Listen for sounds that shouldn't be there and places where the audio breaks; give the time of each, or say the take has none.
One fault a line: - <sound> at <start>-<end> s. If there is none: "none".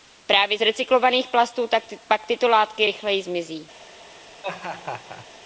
- laugh at 4.4-5.3 s